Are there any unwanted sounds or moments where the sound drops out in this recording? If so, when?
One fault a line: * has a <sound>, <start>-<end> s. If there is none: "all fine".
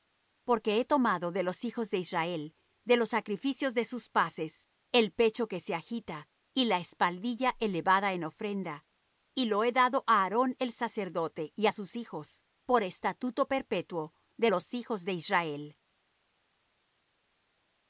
all fine